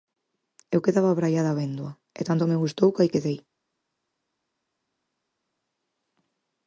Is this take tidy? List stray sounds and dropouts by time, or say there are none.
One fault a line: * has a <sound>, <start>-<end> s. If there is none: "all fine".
all fine